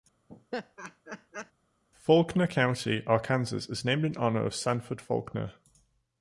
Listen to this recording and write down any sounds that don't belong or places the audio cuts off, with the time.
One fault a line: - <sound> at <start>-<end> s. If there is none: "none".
- laugh at 0.3-1.5 s